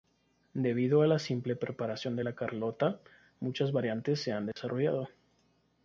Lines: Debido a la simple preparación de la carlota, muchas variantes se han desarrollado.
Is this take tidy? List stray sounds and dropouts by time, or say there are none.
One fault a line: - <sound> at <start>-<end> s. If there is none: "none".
- dropout at 4.5-4.6 s